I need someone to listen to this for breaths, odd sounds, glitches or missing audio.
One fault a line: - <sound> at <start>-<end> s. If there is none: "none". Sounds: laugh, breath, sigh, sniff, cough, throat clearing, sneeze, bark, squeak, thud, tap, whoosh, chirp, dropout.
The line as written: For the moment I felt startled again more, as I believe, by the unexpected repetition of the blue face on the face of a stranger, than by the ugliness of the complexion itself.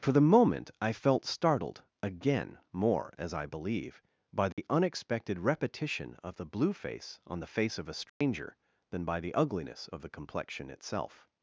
- dropout at 4.5-4.6 s
- dropout at 8.1-8.2 s